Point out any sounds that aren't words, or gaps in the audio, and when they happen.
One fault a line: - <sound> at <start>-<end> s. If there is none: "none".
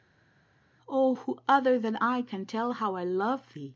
none